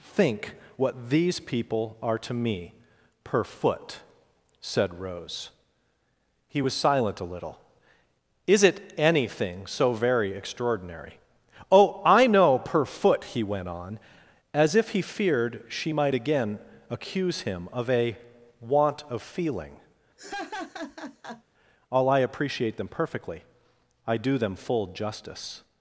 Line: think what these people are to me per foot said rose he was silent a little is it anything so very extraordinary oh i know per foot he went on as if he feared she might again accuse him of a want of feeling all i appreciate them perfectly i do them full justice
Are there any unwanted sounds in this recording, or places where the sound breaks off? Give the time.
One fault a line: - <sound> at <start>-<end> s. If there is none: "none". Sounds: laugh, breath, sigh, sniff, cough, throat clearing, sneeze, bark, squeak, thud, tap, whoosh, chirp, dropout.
- laugh at 20.2-21.4 s